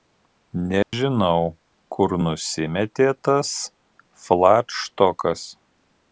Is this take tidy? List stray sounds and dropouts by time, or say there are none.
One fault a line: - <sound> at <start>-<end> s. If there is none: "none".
- dropout at 0.8-0.9 s